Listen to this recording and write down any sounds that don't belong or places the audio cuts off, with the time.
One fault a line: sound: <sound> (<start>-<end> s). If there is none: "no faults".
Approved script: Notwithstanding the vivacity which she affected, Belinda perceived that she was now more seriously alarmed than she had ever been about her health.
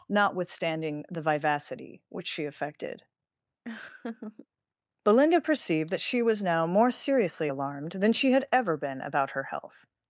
sound: laugh (3.6-4.5 s)